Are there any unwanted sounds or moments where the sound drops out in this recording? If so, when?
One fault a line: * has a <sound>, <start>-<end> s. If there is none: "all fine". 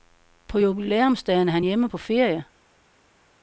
all fine